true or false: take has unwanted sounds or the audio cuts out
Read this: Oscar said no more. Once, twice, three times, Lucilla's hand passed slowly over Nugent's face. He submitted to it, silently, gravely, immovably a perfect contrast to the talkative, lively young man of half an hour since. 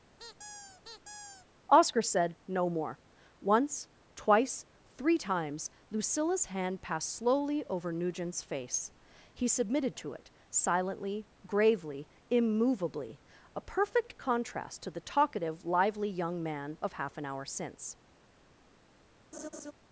true